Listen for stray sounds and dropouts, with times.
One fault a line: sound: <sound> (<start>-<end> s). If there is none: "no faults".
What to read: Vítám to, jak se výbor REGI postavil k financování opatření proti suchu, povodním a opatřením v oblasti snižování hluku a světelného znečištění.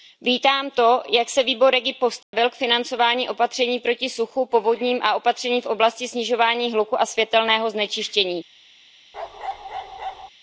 sound: dropout (2.2-2.3 s)
sound: bark (9.1-10.3 s)